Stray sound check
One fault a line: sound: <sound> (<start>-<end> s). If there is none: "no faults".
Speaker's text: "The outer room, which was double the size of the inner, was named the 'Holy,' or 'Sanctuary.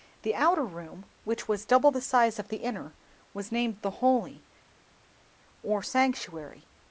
no faults